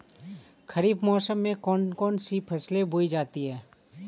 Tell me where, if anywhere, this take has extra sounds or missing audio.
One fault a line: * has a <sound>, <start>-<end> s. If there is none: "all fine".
all fine